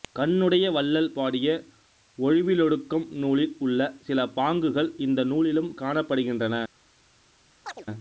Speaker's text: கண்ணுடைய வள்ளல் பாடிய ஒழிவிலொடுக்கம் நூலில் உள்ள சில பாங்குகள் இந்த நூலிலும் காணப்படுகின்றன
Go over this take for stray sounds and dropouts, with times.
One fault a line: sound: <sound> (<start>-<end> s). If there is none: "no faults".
sound: chirp (7.6-7.9 s)